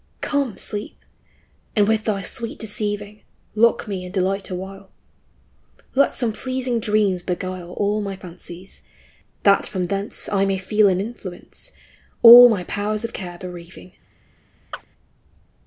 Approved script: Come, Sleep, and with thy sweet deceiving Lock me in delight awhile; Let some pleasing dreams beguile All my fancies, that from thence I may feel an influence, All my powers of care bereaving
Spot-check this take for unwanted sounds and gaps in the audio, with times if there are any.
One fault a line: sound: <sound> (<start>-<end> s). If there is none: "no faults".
sound: chirp (14.7-14.8 s)